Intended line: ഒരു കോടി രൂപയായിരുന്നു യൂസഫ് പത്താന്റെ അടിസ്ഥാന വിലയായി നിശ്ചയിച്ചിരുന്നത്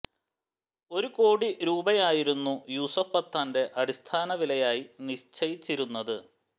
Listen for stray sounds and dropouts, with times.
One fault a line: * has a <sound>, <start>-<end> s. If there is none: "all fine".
all fine